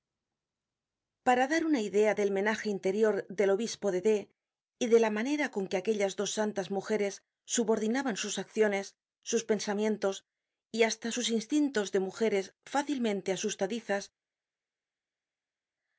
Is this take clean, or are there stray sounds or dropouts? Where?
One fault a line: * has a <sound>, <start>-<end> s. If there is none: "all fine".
all fine